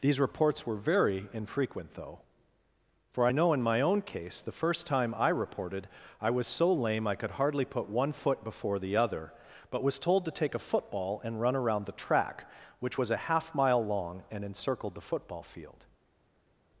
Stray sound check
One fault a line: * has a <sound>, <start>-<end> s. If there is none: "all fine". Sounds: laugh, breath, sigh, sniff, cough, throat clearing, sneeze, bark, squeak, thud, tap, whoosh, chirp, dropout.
all fine